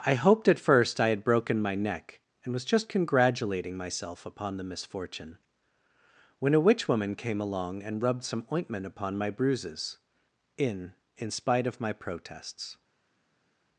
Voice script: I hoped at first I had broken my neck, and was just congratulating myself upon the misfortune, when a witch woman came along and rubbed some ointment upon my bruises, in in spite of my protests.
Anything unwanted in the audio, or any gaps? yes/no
no